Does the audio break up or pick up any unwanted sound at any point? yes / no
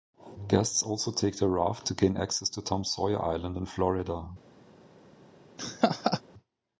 yes